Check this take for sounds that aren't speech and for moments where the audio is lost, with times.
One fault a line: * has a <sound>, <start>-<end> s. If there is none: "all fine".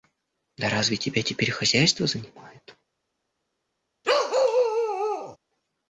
* has a bark, 4.0-5.4 s